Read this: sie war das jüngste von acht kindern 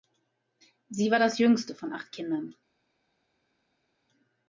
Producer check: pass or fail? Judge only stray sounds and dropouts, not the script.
pass